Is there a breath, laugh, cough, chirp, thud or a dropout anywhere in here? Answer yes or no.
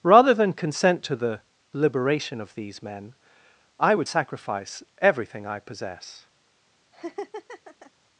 yes